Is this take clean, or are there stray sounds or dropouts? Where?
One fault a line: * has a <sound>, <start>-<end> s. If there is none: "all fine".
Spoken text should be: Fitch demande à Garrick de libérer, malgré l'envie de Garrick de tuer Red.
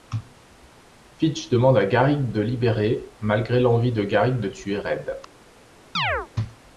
* has a chirp, 5.9-6.3 s